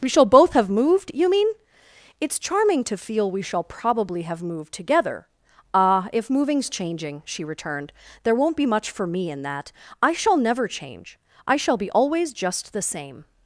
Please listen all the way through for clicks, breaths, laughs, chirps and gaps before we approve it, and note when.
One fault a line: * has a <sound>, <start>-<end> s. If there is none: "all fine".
all fine